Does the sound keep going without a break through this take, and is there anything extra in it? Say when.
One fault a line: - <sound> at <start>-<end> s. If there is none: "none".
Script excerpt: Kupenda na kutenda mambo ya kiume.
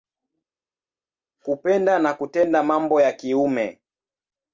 none